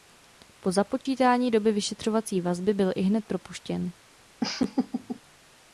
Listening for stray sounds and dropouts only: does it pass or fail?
fail